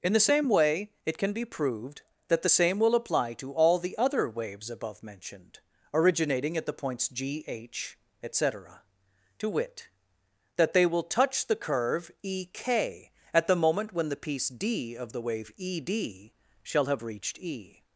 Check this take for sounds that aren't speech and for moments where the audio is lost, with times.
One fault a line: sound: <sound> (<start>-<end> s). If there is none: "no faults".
no faults